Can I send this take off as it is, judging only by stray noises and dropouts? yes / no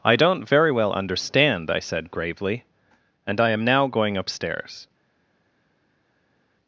yes